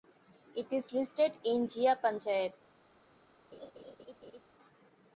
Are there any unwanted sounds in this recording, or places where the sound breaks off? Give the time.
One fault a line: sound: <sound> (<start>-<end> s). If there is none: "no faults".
sound: laugh (3.5-4.4 s)